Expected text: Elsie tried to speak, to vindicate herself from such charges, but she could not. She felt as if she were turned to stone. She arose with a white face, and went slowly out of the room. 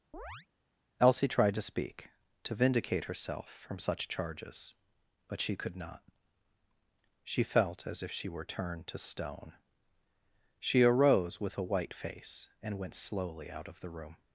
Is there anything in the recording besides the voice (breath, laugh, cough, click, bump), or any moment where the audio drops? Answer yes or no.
yes